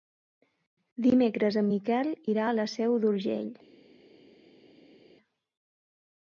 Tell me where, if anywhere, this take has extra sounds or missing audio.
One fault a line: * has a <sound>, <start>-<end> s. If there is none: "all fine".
all fine